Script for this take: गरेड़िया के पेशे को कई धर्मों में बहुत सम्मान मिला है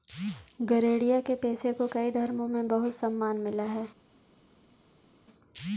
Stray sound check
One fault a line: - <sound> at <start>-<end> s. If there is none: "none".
none